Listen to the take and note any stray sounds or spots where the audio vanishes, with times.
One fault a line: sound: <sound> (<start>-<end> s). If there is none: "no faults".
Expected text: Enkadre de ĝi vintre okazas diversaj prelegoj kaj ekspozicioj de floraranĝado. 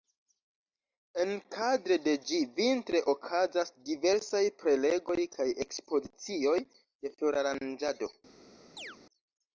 sound: chirp (8.8-9.0 s)